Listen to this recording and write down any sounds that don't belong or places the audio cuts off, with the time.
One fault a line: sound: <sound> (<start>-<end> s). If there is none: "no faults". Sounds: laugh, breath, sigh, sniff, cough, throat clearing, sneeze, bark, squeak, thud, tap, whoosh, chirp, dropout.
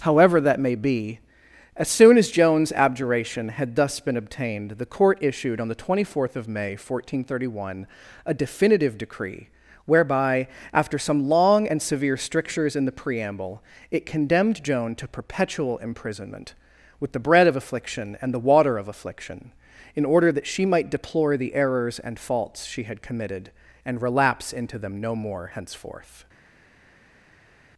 no faults